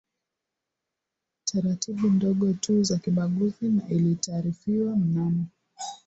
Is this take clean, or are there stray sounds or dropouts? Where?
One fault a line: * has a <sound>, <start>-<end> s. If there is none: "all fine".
all fine